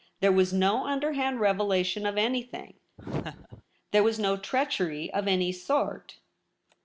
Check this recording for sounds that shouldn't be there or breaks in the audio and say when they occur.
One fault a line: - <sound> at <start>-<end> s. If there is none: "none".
- laugh at 3.0-3.6 s